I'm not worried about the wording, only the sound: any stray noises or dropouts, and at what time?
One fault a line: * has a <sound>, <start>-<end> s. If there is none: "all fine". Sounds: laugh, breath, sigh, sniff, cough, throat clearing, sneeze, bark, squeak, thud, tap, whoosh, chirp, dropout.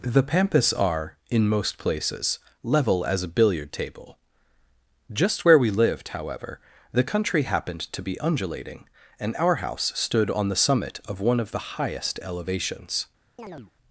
* has a chirp, 13.4-13.7 s